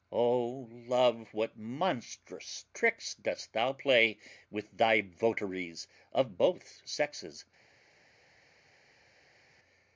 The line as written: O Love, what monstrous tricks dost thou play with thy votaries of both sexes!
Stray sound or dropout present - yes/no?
no